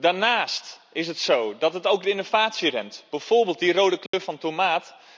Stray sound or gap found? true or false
true